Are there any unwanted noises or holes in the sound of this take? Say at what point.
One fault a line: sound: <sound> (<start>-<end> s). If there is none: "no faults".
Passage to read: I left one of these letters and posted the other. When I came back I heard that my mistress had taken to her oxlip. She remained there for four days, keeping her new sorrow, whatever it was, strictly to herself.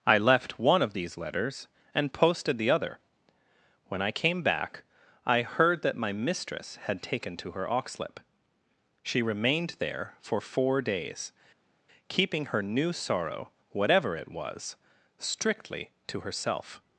no faults